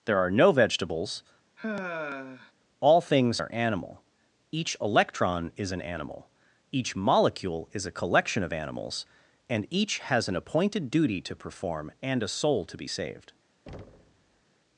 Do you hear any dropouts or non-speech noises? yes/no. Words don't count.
yes